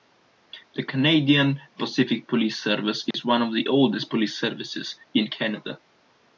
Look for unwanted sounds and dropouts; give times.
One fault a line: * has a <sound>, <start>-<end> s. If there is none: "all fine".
* has a dropout, 3.1-3.1 s